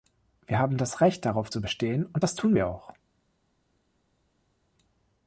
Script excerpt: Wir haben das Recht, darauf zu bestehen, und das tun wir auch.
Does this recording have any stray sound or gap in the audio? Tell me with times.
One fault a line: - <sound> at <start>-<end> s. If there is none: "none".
none